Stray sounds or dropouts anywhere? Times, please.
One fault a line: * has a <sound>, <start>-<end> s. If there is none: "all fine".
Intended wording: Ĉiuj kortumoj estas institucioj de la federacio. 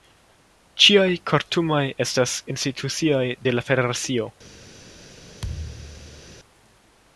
* has a thud, 5.4-6.4 s